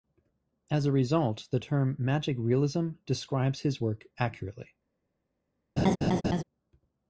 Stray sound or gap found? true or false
true